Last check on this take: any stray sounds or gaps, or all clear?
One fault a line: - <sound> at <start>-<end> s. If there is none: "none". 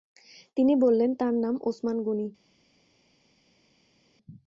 none